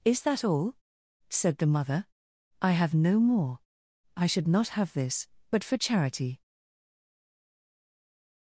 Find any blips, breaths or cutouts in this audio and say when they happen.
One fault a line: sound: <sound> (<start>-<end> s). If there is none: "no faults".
no faults